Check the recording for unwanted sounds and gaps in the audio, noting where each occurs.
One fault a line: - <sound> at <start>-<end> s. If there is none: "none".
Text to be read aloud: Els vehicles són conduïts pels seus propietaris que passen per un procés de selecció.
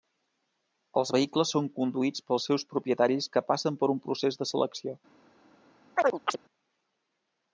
- chirp at 6.0-6.4 s